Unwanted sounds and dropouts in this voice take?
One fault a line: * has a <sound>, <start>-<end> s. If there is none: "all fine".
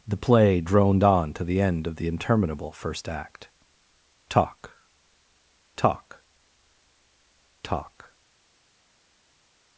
all fine